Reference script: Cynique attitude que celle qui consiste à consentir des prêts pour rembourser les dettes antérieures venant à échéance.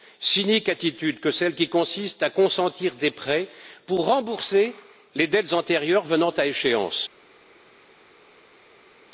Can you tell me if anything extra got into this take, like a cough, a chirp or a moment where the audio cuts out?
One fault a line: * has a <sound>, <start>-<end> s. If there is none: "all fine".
all fine